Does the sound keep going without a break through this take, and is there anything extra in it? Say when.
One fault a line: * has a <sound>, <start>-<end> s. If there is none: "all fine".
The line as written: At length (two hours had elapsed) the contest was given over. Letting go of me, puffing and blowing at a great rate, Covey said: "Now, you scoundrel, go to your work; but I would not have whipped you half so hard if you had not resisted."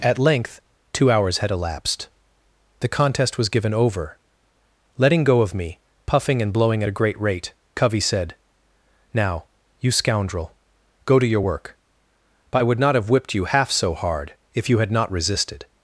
all fine